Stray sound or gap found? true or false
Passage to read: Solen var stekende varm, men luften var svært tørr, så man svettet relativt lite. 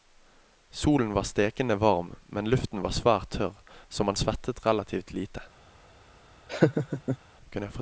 true